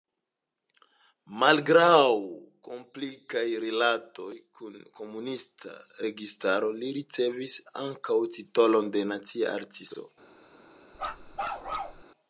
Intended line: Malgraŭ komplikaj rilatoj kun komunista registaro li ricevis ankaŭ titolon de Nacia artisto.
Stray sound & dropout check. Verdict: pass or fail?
fail